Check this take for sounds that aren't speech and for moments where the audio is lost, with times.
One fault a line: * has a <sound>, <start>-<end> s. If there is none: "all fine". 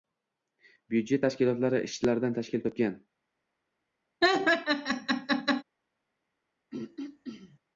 * has a laugh, 4.2-5.6 s
* has a throat clearing, 6.7-7.6 s